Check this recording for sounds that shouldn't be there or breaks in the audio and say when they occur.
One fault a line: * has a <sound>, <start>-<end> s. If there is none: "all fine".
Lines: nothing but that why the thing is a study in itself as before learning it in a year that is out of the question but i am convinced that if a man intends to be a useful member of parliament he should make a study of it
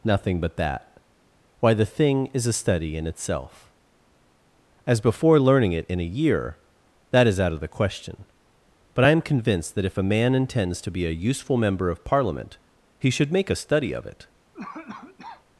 * has a cough, 14.5-15.4 s